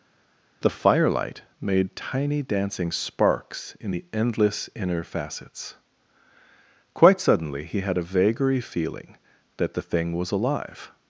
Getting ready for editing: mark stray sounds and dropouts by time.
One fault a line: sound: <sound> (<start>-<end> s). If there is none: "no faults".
no faults